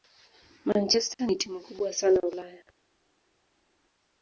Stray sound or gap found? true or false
false